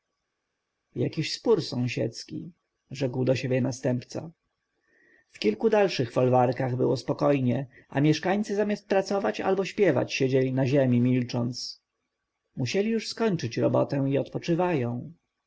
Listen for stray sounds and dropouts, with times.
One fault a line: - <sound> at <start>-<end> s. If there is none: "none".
none